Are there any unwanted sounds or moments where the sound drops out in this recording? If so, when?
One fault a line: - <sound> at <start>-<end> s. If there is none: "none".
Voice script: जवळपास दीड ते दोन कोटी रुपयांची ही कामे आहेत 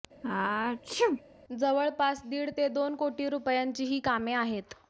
- sneeze at 0.2-1.2 s